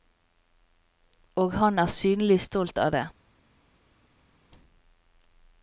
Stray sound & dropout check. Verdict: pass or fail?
pass